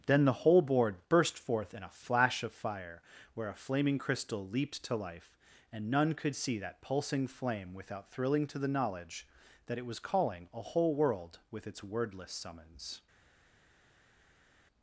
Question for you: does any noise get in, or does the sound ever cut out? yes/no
no